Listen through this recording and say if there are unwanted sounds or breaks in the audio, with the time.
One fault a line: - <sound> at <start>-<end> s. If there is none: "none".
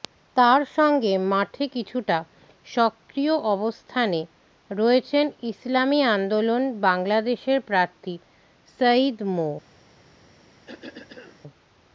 - cough at 10.7-11.4 s